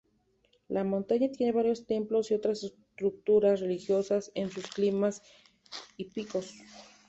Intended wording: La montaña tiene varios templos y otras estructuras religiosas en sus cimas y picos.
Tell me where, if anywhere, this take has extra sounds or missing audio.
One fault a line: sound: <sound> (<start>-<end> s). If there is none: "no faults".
no faults